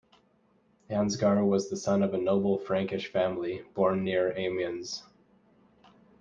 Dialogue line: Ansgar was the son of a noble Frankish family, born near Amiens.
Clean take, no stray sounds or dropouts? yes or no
yes